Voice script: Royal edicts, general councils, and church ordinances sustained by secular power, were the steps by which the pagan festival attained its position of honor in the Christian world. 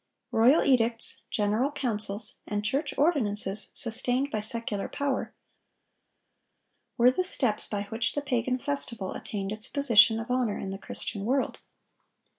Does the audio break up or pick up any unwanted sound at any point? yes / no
no